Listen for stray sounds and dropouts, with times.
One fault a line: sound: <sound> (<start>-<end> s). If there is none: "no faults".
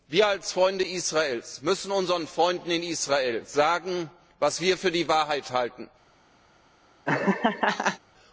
sound: laugh (7.1-8.0 s)